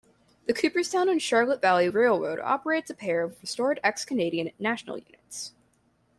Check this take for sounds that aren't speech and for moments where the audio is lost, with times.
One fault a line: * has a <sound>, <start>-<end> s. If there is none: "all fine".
all fine